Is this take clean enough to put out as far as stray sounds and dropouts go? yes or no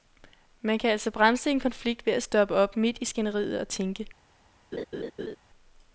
no